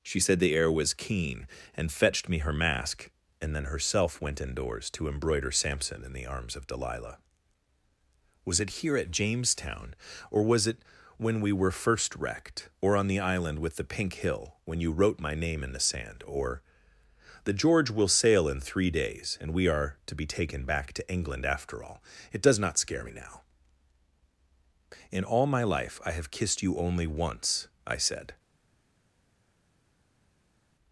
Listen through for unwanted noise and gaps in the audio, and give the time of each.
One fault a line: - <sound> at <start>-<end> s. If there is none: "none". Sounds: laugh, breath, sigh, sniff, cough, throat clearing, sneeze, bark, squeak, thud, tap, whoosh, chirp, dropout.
none